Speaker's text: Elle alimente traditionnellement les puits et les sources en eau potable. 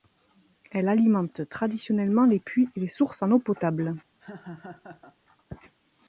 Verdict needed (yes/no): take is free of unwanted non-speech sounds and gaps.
no